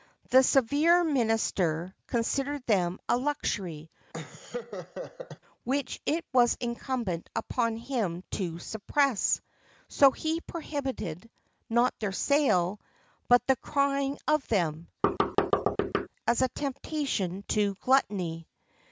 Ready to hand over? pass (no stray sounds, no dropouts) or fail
fail